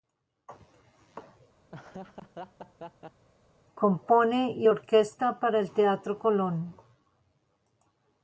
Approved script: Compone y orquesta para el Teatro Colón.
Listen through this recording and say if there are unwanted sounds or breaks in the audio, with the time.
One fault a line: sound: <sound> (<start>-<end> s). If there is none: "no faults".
sound: laugh (1.7-3.3 s)